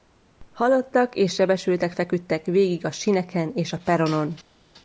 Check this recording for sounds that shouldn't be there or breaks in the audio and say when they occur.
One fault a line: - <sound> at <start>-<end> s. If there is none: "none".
none